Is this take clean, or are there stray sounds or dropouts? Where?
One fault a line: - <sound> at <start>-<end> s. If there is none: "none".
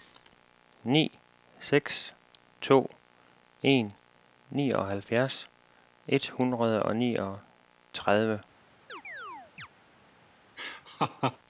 - chirp at 8.9-9.7 s
- laugh at 10.6-11.4 s